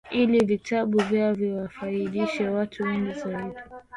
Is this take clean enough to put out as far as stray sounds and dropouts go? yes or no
yes